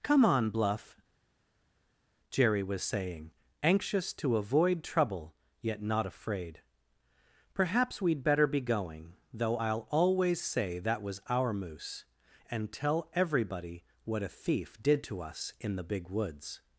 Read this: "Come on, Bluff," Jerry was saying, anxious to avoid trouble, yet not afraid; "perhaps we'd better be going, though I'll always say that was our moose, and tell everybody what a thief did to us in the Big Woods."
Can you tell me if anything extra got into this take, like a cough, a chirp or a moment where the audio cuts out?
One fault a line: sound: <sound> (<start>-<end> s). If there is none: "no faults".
no faults